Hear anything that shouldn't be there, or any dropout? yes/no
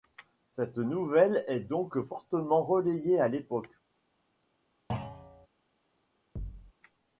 yes